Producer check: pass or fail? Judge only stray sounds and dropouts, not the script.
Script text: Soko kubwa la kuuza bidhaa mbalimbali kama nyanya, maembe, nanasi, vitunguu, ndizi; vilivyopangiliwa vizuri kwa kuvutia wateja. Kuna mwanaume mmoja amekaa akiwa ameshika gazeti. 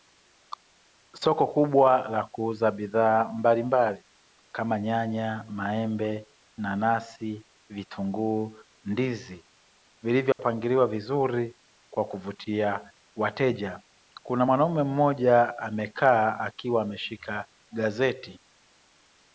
fail